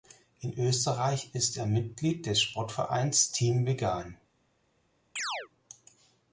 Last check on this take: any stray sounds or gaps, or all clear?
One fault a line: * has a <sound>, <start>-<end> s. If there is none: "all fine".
* has a chirp, 5.2-5.5 s